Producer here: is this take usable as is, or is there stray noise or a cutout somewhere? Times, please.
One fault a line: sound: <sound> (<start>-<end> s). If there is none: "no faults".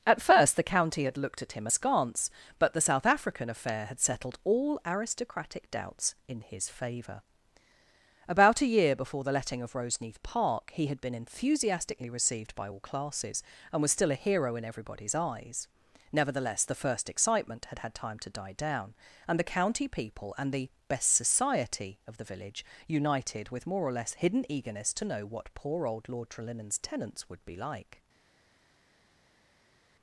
no faults